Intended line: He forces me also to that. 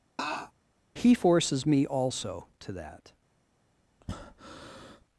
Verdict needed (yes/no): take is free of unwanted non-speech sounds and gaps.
no